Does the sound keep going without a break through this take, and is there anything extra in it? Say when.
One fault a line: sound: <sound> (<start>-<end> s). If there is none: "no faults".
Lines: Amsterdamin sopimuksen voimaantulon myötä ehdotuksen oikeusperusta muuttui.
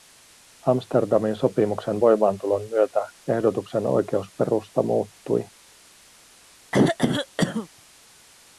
sound: throat clearing (6.7-7.7 s)